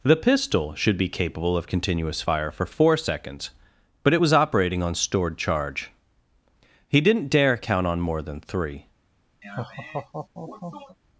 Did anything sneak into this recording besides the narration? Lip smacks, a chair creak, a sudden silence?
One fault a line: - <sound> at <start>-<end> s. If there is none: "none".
- laugh at 9.4-11.0 s